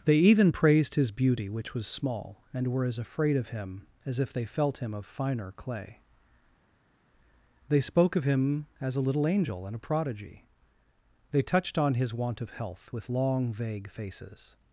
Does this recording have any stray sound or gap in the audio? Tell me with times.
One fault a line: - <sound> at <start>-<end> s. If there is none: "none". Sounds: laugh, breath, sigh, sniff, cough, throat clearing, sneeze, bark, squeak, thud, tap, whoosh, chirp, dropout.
none